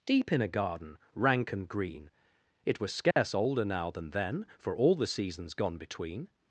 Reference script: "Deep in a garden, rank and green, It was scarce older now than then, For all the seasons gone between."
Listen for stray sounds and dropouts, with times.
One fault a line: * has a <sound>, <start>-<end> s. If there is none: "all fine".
* has a dropout, 3.1-3.2 s